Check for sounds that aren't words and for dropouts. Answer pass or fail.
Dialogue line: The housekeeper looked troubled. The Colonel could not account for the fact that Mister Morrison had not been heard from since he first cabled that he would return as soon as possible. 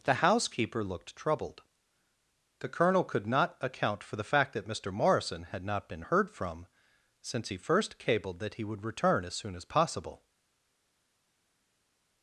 pass